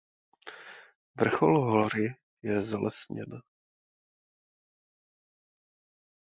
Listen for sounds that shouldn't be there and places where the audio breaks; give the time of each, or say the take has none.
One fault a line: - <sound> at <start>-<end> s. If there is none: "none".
none